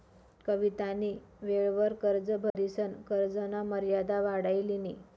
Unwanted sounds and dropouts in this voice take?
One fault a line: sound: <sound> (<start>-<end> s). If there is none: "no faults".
sound: dropout (2.5-2.6 s)